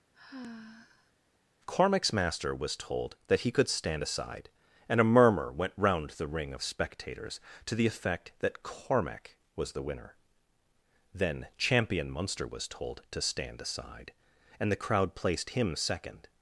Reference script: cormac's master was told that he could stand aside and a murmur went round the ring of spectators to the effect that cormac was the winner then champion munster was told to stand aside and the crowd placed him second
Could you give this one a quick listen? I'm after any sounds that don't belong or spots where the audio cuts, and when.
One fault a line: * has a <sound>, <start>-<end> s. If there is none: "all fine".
* has a sigh, 0.1-1.1 s